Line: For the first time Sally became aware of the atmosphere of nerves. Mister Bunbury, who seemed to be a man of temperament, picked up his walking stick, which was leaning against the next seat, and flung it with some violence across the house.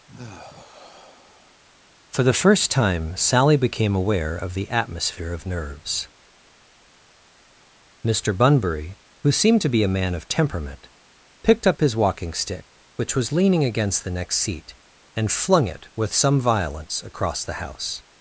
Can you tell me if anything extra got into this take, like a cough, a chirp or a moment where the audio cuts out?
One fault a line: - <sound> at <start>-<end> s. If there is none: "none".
- sigh at 0.1-1.6 s